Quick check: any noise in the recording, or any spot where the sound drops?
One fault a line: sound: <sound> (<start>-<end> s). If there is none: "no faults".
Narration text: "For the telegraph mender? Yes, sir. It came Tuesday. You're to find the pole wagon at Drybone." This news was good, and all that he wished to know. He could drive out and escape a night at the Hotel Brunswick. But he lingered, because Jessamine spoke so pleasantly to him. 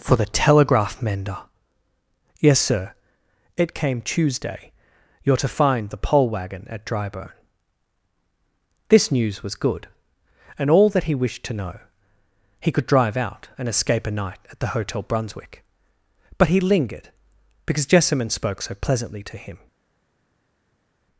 no faults